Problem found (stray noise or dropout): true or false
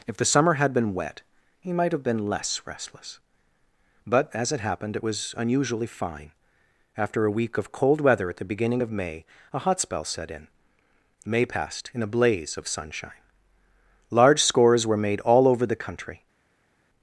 false